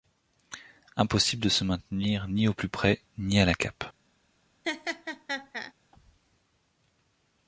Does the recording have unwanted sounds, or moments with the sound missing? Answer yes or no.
yes